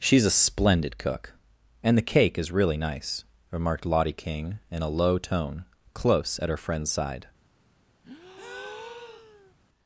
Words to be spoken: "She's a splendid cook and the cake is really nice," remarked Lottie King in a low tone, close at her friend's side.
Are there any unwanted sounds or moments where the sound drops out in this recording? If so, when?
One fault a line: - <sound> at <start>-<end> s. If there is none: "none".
- breath at 8.0-9.5 s